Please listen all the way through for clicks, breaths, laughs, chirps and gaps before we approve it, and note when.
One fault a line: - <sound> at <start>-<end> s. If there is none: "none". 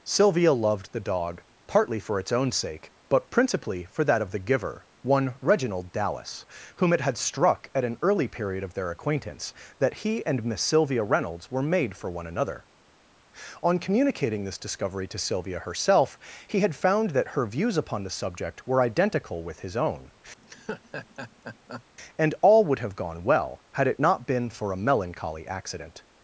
- laugh at 20.4-21.8 s